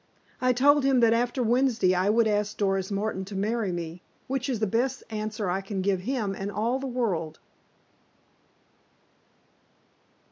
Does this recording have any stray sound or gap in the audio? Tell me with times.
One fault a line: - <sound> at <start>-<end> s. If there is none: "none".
none